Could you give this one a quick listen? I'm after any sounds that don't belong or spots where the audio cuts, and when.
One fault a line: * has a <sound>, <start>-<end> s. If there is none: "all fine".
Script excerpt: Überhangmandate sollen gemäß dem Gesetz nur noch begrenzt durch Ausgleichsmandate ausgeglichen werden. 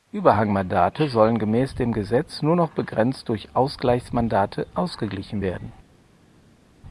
all fine